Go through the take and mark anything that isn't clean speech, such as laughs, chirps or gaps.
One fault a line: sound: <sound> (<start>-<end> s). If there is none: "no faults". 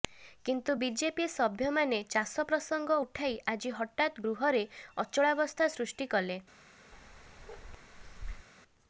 sound: bark (6.9-8.5 s)